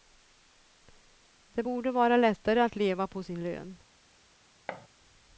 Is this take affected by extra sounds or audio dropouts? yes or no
yes